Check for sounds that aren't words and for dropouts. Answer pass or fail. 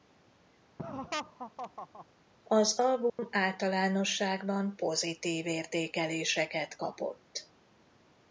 fail